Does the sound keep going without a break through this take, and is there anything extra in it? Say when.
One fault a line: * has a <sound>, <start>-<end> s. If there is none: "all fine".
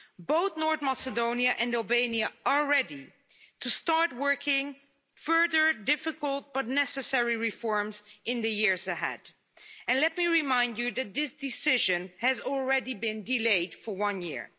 all fine